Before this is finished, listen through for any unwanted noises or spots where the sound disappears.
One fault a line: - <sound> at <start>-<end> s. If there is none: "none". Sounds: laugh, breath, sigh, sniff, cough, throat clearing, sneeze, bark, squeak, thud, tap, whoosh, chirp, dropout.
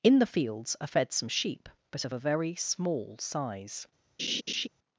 - laugh at 4.2-4.7 s